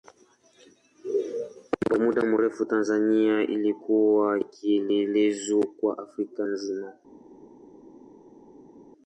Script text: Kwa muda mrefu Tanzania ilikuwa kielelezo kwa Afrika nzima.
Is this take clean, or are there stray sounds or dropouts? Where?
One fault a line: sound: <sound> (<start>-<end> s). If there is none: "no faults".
no faults